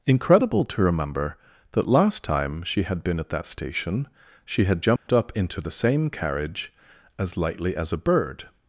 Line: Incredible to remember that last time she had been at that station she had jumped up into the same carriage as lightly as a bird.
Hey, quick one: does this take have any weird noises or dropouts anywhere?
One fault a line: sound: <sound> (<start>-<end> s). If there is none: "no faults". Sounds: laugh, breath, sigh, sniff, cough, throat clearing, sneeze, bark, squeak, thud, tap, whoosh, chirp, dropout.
sound: dropout (5.0-5.1 s)